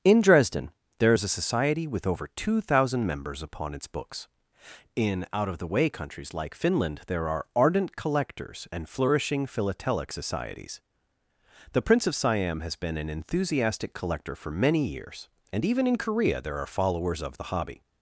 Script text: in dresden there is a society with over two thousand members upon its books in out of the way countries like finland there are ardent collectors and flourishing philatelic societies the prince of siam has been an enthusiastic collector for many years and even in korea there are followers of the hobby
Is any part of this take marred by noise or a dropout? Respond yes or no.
no